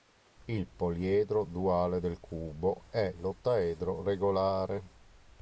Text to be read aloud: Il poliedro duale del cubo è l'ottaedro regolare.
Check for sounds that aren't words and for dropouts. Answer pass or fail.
pass